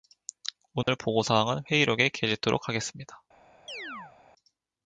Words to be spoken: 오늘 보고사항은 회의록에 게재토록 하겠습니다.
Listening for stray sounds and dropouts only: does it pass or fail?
fail